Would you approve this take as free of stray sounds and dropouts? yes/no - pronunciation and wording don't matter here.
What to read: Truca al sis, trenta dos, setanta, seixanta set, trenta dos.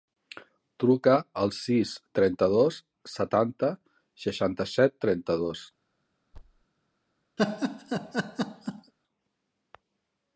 no